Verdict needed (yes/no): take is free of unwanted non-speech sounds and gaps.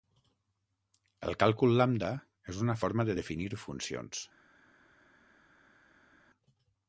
yes